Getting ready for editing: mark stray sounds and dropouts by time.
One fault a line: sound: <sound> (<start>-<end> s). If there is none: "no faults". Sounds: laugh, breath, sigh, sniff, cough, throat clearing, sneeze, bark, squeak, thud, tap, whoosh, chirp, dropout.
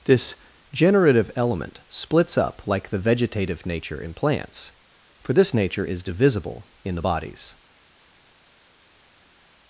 no faults